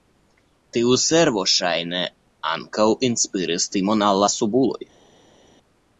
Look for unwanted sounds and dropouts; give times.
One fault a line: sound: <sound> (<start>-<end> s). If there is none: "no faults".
no faults